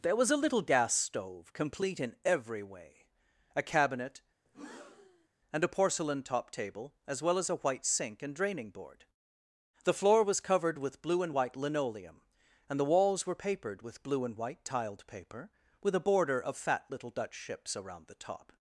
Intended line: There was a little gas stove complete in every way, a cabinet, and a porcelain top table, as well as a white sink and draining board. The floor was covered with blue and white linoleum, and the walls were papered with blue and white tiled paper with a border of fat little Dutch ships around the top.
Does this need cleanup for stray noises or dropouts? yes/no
yes